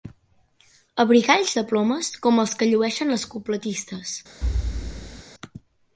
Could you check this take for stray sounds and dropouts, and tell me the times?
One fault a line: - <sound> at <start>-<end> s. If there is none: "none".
- thud at 4.4-5.2 s